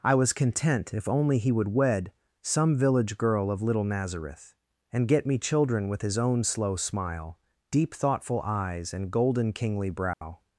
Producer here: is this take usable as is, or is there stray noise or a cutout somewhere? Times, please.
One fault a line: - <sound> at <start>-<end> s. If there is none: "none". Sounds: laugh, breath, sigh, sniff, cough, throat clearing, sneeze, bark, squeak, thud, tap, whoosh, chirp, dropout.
- dropout at 10.1-10.2 s